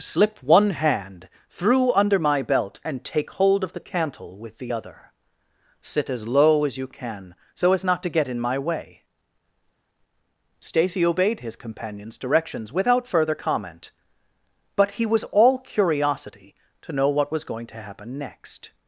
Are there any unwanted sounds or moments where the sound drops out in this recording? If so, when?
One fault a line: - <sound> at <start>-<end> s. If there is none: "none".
none